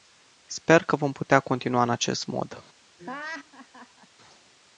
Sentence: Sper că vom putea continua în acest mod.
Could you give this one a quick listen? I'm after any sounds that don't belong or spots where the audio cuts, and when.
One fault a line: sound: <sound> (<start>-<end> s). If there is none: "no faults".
sound: laugh (3.0-4.1 s)